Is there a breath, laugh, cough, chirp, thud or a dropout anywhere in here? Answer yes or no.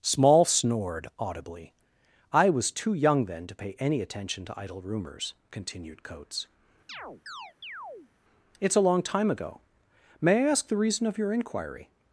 yes